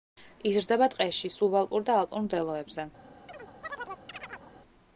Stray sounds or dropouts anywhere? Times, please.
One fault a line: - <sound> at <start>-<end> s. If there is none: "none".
- chirp at 3.3-4.5 s